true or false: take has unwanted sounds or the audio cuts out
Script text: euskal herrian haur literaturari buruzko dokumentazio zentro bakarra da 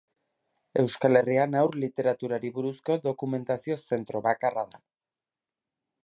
false